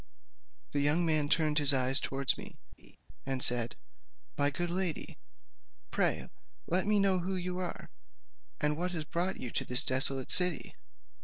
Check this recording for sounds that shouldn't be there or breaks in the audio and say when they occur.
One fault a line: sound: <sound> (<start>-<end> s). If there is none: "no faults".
sound: laugh (2.8-3.0 s)